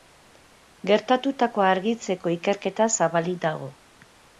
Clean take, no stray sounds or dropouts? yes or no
yes